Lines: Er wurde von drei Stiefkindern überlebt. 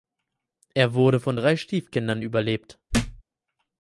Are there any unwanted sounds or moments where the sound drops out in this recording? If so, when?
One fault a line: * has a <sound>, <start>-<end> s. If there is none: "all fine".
* has a thud, 2.9-3.2 s